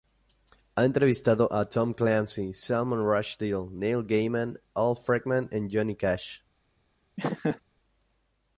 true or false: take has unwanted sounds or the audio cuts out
true